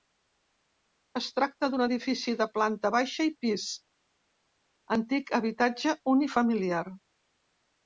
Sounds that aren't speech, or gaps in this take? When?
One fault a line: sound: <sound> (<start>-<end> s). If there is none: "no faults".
no faults